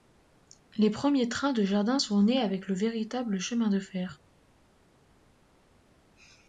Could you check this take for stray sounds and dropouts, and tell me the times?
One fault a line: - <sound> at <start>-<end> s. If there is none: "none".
none